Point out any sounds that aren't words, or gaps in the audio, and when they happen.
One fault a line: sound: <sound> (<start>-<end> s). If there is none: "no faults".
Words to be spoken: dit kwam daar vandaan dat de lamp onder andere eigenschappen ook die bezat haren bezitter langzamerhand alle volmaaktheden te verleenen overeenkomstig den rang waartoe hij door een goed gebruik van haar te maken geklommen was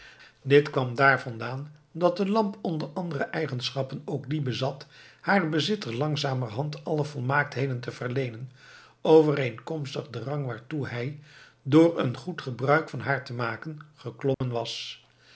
sound: dropout (14.3-14.4 s)